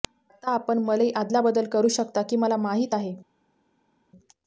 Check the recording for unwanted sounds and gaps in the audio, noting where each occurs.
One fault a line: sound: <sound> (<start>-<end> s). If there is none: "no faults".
no faults